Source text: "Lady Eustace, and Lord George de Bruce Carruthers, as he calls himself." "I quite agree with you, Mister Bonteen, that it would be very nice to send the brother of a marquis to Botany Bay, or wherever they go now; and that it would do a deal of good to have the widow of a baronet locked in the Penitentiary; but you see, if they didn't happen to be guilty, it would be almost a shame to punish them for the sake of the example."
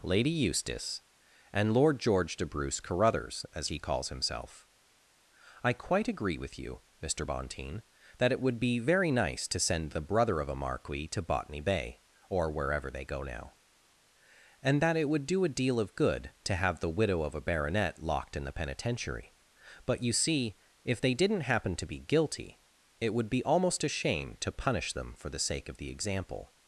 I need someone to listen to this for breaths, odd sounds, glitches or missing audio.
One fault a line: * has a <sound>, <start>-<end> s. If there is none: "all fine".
all fine